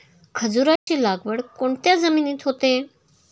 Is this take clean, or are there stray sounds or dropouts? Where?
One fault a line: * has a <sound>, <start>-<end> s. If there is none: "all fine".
* has a dropout, 0.8-0.9 s